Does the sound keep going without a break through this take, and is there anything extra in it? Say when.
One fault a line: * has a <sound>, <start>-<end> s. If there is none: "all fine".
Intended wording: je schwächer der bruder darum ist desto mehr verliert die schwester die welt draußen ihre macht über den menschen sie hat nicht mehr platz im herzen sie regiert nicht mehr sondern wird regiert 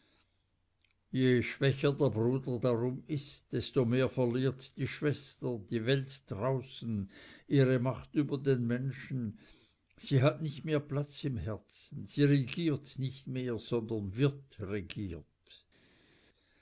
all fine